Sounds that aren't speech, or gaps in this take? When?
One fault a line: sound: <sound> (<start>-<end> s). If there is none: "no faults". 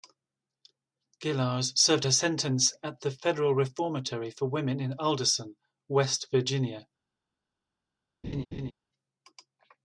sound: laugh (8.2-8.7 s)